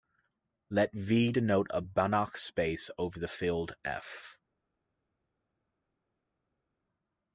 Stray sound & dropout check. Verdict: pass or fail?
pass